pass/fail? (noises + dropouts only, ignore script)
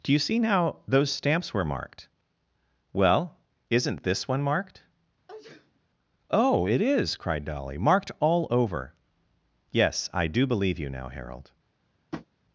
fail